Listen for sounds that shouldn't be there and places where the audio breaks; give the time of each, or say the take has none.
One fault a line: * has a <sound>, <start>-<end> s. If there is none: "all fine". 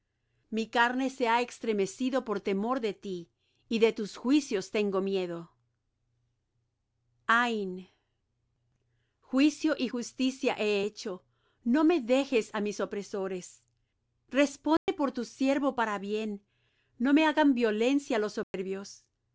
* has a dropout, 14.8-14.9 s
* has a dropout, 18.4-18.5 s